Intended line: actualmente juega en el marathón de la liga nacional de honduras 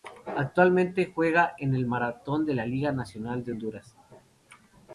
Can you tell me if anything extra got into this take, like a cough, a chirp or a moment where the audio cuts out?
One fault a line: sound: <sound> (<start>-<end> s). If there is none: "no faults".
no faults